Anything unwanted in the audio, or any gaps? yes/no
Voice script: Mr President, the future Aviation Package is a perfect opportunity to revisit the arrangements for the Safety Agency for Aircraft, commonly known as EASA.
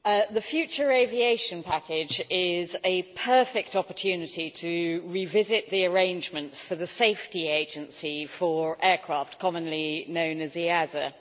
no